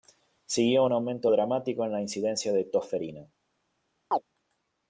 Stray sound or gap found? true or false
true